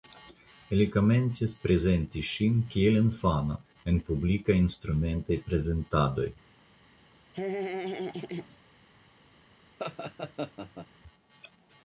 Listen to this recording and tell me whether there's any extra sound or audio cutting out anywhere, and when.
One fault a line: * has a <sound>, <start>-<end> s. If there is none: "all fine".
* has a laugh, 7.3-8.6 s
* has a laugh, 9.8-10.9 s